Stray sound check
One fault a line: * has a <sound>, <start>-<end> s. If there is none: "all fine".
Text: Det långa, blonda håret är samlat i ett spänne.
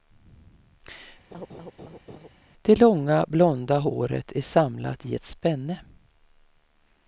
* has a laugh, 1.3-2.3 s